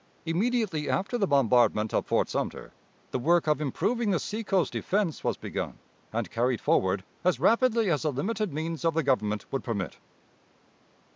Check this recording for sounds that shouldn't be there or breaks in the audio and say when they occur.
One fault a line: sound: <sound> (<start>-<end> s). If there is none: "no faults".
no faults